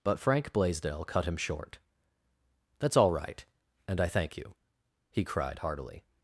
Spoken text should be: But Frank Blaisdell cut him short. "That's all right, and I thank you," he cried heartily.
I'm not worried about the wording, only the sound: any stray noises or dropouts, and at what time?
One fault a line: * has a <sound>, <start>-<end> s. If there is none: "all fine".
all fine